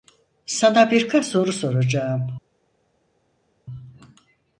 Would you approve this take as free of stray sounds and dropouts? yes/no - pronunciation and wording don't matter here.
yes